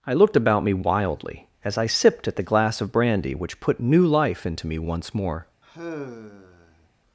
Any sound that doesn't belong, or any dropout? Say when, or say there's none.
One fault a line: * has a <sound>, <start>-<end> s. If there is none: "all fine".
* has a sigh, 5.6-6.9 s